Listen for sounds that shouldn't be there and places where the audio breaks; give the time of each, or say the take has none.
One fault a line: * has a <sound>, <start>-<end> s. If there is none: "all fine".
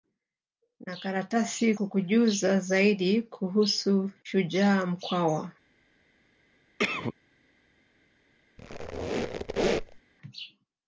* has a cough, 6.8-7.1 s
* has a squeak, 8.6-10.0 s